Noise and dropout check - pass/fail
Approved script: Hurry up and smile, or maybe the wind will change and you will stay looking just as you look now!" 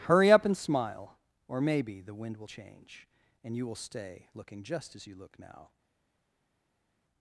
pass